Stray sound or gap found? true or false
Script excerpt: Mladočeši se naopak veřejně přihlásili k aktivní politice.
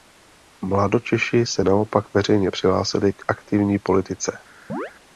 true